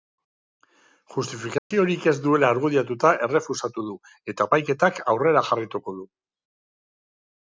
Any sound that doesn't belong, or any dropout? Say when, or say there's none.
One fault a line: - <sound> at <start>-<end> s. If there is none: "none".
- dropout at 1.6-1.7 s